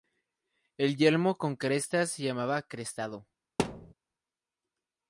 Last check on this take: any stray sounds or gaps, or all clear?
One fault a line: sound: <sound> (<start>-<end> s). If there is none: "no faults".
sound: thud (3.6-3.9 s)